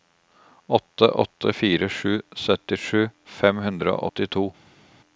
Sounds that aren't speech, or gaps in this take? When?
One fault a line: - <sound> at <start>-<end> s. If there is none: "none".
none